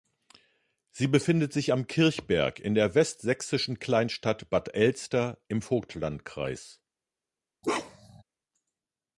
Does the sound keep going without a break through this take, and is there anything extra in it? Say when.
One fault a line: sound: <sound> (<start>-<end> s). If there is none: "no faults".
sound: bark (7.6-8.2 s)